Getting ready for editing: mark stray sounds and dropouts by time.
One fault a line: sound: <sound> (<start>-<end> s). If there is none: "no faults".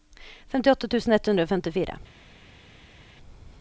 no faults